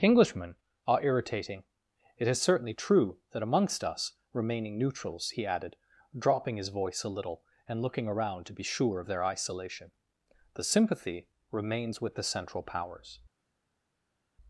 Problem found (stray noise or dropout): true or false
false